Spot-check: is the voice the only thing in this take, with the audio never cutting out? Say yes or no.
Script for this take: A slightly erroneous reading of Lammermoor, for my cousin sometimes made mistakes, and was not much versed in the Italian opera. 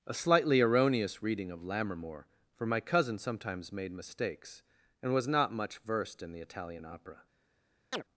no